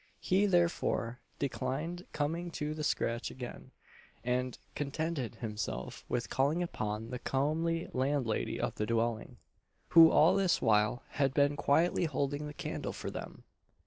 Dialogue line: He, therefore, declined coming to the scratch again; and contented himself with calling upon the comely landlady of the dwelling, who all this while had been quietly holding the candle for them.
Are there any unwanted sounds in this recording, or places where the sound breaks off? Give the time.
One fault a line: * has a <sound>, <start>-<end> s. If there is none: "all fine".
all fine